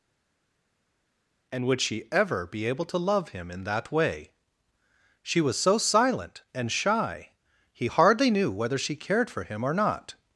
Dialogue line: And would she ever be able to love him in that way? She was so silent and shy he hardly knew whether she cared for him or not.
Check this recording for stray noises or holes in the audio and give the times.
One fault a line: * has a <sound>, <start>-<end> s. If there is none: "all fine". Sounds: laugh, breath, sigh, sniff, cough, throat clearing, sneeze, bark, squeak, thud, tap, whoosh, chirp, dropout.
all fine